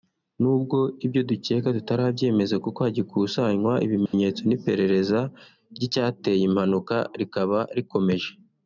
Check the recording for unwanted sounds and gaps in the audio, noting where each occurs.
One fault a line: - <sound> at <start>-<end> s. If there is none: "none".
- dropout at 4.1-4.1 s